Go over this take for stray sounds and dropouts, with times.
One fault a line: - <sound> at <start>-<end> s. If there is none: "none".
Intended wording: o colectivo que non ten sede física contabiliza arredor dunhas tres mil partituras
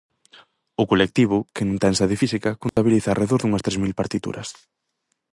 - dropout at 2.7-2.8 s